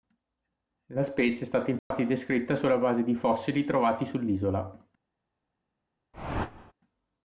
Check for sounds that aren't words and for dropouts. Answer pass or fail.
fail